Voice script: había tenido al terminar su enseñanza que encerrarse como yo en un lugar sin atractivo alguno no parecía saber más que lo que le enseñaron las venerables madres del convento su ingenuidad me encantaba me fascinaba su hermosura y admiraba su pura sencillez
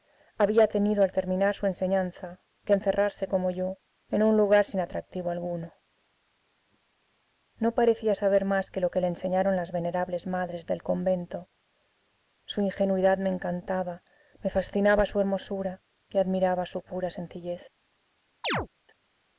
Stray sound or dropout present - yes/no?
yes